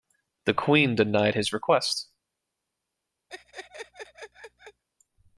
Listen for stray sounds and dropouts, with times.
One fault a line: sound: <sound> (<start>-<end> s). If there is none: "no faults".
sound: laugh (3.3-4.8 s)